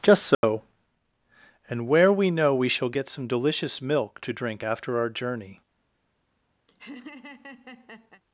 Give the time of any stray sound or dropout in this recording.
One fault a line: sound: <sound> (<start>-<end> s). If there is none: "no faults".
sound: dropout (0.3-0.4 s)
sound: laugh (6.7-8.2 s)